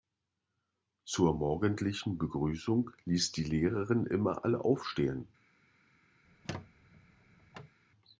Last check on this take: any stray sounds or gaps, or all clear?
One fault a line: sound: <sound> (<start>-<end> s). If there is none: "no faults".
sound: squeak (6.2-7.8 s)